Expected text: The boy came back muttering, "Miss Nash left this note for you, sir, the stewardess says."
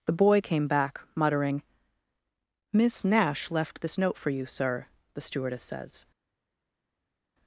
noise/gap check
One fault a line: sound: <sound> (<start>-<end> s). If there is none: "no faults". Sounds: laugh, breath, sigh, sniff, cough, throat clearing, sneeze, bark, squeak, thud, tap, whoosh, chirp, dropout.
no faults